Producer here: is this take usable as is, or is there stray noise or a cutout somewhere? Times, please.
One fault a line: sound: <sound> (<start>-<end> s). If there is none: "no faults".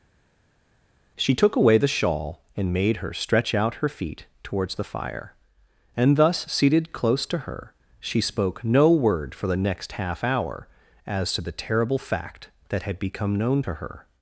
no faults